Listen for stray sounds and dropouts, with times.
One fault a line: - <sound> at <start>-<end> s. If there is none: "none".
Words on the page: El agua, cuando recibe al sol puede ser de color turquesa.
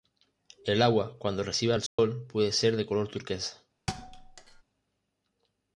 - dropout at 1.9-2.0 s
- thud at 3.9-4.6 s